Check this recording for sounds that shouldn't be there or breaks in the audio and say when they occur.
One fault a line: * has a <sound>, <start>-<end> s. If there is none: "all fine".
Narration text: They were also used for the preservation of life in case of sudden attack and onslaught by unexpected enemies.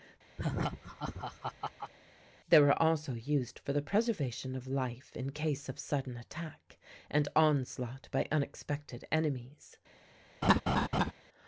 * has a laugh, 0.4-1.9 s
* has a laugh, 10.4-11.1 s